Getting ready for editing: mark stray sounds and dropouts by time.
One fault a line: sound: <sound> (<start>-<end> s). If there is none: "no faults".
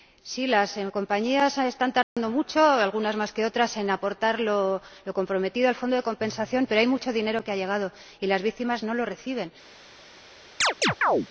sound: dropout (2.0-2.2 s)
sound: chirp (10.6-11.3 s)